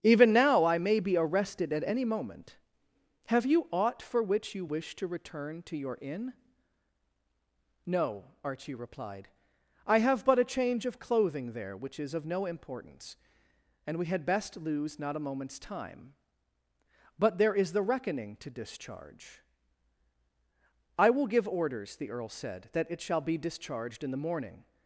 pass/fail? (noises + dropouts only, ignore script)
pass